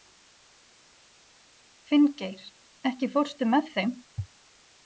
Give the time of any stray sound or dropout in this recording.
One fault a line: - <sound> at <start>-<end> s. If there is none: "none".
none